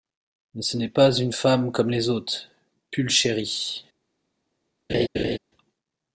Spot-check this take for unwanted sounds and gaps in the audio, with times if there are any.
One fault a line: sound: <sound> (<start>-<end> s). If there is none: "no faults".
sound: laugh (4.9-5.4 s)